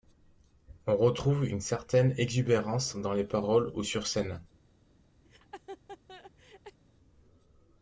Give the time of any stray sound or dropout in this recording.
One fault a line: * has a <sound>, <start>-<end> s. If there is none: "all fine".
* has a laugh, 5.2-6.8 s